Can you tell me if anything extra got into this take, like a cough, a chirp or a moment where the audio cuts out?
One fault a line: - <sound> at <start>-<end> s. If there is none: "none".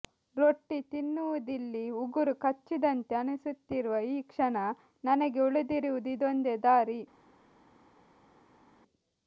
none